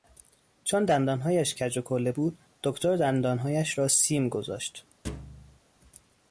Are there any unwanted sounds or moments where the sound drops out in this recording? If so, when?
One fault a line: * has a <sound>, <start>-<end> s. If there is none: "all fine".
* has a thud, 5.0-5.6 s